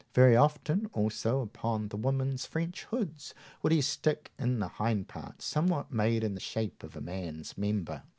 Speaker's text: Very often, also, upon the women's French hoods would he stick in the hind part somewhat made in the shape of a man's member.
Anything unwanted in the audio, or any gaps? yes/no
no